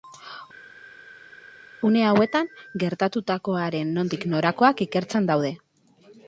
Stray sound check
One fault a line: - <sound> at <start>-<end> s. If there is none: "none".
none